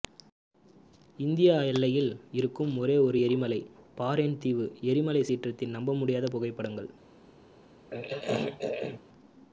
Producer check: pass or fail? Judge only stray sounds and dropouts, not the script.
fail